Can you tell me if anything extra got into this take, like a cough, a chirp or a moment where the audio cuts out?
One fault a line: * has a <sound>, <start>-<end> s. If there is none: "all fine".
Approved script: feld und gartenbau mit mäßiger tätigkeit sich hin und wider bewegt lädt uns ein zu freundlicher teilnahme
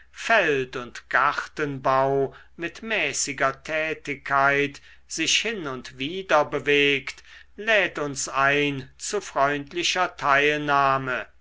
all fine